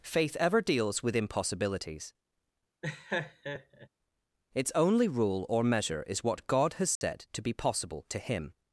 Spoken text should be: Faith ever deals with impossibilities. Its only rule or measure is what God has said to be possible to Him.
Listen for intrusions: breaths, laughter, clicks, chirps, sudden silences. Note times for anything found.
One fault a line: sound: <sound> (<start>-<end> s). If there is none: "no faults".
sound: laugh (2.8-3.9 s)
sound: dropout (7.0-7.0 s)